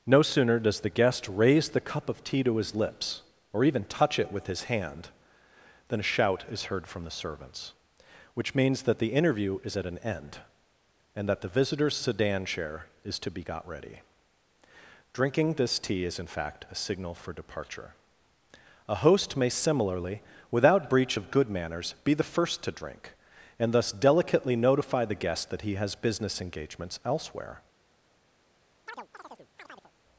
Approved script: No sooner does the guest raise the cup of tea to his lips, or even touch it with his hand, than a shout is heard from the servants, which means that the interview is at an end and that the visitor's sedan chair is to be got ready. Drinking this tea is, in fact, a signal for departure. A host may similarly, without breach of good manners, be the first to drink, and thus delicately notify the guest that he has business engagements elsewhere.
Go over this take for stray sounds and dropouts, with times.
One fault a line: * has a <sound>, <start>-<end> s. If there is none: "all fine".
* has a chirp, 28.9-29.9 s